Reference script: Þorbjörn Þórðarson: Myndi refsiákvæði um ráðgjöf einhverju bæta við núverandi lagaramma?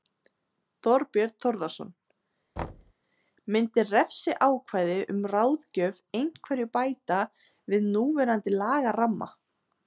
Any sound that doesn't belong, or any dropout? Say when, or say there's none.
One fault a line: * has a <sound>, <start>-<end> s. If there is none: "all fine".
* has a thud, 2.6-2.9 s